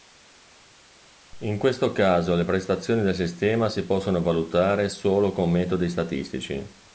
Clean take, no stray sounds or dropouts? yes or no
yes